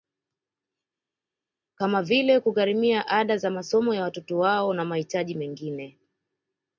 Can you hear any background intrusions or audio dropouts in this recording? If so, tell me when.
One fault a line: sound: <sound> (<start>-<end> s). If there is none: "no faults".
no faults